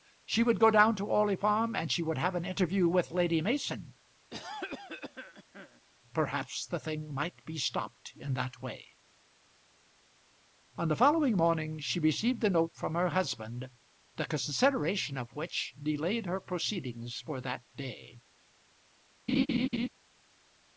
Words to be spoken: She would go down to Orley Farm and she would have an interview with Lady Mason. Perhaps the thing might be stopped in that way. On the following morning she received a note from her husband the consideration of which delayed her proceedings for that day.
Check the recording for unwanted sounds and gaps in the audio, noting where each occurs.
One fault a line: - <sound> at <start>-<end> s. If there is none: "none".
- cough at 4.3-5.8 s
- laugh at 19.3-19.9 s